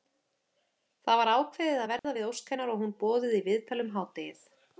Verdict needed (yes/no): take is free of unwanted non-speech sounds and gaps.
no